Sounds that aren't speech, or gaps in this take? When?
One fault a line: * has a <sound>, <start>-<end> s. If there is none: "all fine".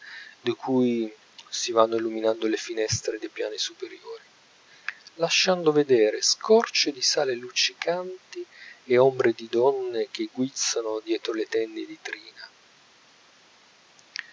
all fine